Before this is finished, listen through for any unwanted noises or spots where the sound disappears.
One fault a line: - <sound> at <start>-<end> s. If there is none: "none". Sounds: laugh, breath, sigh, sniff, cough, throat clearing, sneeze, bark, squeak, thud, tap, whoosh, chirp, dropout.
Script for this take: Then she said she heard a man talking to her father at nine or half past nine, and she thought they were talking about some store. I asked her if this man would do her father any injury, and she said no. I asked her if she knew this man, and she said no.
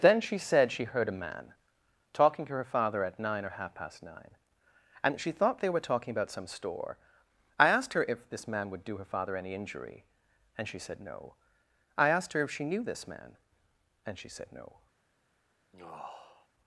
- sigh at 15.7-16.5 s